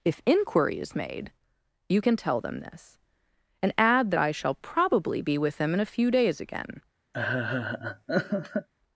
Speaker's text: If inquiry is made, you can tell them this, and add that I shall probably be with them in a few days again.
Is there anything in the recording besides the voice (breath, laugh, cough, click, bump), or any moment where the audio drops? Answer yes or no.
yes